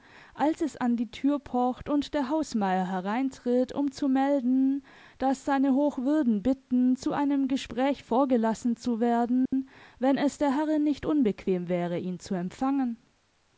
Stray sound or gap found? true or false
true